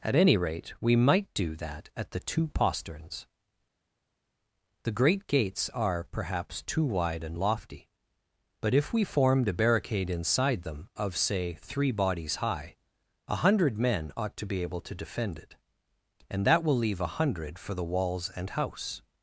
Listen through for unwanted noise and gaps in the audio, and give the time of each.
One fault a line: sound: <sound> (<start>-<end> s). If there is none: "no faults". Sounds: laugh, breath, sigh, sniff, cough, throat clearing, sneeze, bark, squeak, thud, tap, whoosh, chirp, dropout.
no faults